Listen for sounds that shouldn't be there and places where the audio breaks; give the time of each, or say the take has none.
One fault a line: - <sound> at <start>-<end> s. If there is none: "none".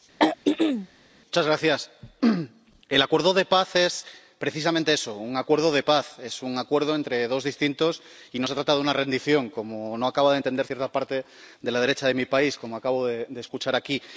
- throat clearing at 0.2-0.9 s